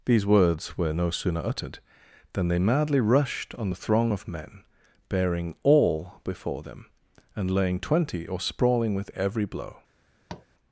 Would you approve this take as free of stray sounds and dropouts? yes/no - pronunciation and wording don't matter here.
no